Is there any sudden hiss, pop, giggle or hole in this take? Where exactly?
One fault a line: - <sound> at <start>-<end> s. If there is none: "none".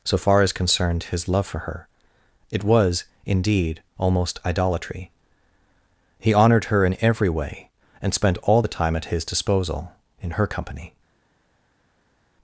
none